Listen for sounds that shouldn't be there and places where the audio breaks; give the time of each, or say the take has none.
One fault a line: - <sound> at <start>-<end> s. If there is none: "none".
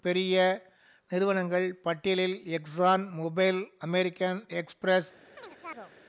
- chirp at 5.4-5.9 s